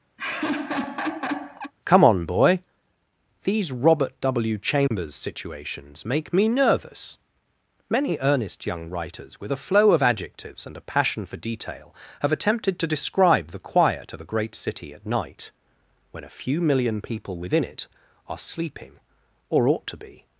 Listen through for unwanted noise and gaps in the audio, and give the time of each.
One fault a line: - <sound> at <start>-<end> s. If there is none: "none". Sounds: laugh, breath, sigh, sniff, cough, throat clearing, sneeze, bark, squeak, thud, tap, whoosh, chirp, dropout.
- laugh at 0.2-1.7 s
- dropout at 4.9-4.9 s